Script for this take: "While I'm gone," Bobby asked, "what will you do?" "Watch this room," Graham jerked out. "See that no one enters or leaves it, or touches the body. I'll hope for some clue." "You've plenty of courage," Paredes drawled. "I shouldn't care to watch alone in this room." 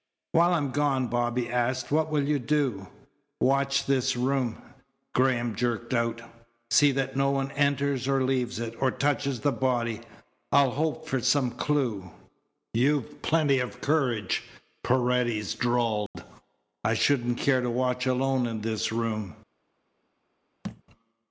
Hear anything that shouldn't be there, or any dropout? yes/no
yes